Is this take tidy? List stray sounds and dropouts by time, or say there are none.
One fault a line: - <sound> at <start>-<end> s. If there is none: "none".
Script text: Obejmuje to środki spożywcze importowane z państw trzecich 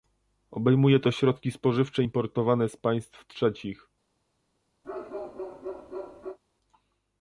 - bark at 4.8-6.4 s